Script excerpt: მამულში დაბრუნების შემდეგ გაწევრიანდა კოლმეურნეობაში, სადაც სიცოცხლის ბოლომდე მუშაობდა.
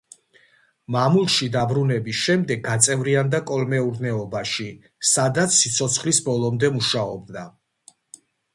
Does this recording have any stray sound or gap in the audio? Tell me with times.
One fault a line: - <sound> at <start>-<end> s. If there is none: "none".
none